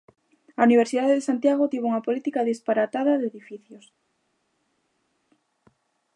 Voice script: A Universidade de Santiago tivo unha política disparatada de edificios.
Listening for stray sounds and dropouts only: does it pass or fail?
pass